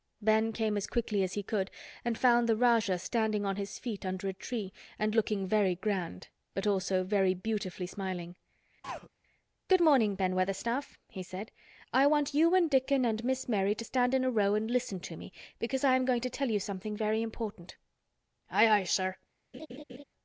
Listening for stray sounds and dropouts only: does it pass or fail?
fail